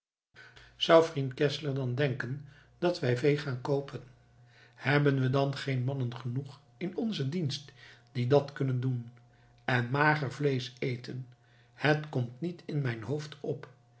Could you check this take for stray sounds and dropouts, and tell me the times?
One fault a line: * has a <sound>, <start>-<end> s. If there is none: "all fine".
all fine